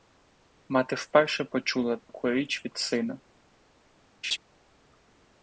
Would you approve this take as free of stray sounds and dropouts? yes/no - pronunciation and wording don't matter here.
no